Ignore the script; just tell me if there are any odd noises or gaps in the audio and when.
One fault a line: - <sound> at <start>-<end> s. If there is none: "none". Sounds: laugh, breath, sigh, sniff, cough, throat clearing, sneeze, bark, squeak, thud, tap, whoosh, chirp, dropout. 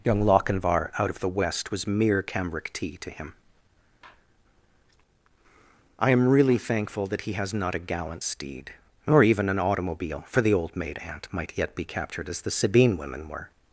none